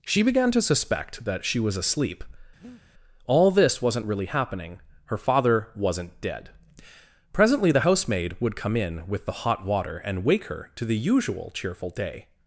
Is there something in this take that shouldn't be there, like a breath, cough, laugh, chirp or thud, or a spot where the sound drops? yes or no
yes